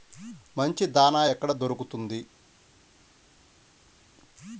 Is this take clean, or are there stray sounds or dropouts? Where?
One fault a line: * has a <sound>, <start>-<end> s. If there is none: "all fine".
all fine